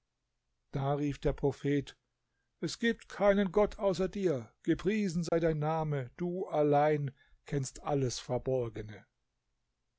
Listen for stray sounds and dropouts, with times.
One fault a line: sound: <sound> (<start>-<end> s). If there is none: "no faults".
sound: dropout (5.3-5.3 s)